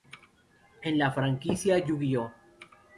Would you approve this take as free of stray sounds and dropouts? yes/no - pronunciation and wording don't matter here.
yes